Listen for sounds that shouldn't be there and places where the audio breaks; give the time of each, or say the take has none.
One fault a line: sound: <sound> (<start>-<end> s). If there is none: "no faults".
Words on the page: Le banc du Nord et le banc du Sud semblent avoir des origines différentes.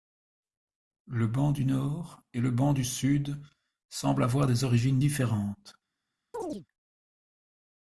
sound: chirp (6.3-6.7 s)